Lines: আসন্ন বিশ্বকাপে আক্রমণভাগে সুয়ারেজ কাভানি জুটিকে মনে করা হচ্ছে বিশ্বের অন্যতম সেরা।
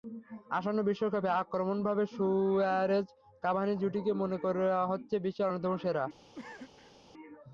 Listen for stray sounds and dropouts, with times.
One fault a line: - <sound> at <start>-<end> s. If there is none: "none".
- cough at 6.3-7.0 s